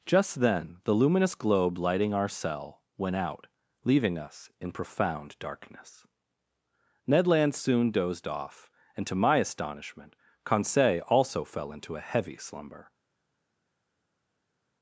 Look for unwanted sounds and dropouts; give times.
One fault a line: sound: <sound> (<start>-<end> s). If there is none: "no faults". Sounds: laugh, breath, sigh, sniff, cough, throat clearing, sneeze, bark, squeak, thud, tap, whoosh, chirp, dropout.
no faults